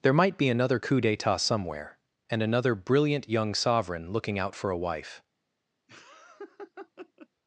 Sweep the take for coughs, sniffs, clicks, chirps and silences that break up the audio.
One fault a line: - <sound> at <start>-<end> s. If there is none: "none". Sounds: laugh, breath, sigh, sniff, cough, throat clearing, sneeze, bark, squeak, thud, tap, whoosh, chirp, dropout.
- laugh at 5.9-7.3 s